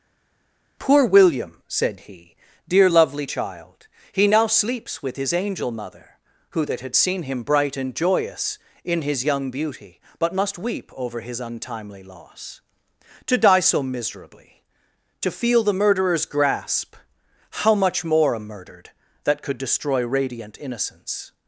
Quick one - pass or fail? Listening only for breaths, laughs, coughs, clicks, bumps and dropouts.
pass